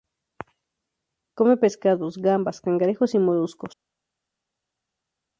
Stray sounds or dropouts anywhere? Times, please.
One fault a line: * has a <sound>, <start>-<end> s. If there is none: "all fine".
all fine